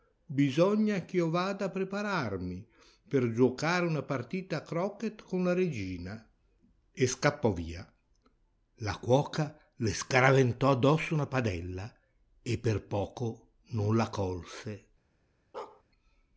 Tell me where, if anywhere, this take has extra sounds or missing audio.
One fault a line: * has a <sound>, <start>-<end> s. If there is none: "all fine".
* has a bark, 15.5-15.8 s